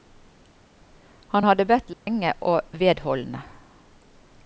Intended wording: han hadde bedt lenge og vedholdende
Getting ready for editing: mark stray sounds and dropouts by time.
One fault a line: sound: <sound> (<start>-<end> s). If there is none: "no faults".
sound: dropout (1.9-2.1 s)